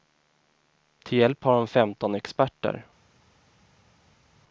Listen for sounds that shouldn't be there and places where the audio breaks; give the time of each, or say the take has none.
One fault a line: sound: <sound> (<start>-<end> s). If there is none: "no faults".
no faults